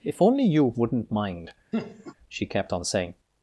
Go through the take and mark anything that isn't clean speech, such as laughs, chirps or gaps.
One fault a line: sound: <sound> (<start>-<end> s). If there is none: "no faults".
sound: laugh (1.7-2.1 s)